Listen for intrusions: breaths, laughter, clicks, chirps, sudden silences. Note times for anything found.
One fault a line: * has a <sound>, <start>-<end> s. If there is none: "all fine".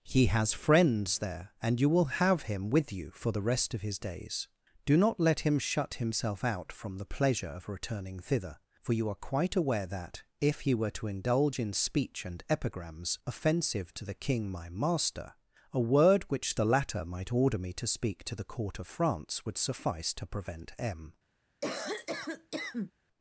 * has a cough, 21.6-22.9 s